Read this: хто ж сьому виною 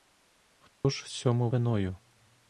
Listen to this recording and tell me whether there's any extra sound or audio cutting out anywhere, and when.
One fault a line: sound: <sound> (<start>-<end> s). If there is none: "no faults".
sound: dropout (0.8-0.8 s)